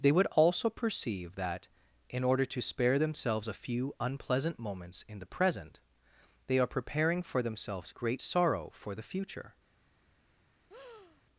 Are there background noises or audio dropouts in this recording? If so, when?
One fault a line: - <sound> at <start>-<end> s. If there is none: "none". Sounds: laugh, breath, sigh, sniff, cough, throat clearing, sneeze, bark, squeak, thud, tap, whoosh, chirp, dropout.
- breath at 10.7-11.2 s